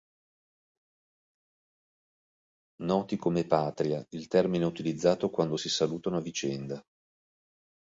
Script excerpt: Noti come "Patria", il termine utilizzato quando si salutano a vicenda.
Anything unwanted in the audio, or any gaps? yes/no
no